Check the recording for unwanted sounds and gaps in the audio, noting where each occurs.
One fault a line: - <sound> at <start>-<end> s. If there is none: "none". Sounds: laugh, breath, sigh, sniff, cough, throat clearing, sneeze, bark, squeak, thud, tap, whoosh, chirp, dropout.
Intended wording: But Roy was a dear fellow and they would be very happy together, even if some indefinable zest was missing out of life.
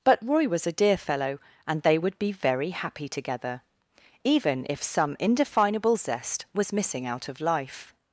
none